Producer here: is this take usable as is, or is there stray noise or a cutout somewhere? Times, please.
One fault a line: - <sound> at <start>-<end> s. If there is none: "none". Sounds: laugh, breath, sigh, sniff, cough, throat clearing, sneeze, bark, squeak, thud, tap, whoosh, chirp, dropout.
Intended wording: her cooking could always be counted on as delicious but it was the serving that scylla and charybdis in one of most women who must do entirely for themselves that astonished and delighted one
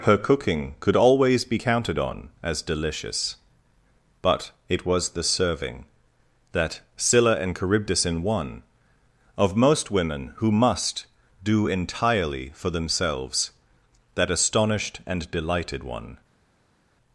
none